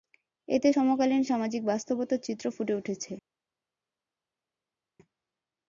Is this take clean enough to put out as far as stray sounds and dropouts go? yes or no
yes